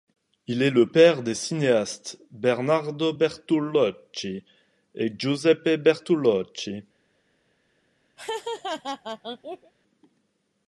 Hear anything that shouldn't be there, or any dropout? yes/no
yes